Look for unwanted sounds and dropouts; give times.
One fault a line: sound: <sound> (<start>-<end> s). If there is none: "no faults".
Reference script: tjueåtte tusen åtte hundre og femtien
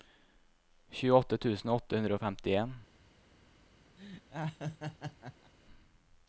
sound: laugh (4.0-5.5 s)